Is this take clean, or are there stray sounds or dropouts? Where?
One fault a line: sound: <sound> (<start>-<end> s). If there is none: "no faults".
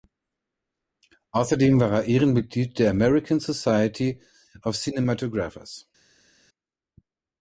no faults